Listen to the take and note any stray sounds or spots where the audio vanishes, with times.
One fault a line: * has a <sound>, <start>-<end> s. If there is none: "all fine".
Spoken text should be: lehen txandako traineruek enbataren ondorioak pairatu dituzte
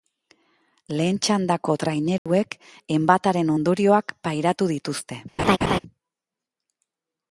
* has a dropout, 2.2-2.3 s
* has a laugh, 5.4-5.8 s